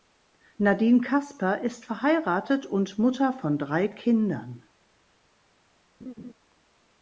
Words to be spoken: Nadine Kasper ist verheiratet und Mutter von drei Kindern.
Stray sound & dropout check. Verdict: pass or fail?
fail